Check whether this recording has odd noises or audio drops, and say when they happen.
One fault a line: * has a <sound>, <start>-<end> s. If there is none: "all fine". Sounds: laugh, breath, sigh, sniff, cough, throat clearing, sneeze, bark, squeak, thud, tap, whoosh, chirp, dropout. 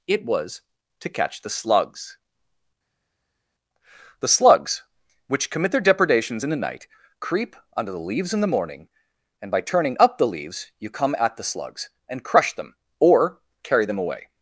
all fine